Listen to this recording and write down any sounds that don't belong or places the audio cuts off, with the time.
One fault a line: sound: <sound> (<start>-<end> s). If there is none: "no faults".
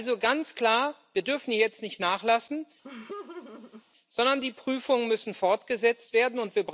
sound: laugh (2.8-3.8 s)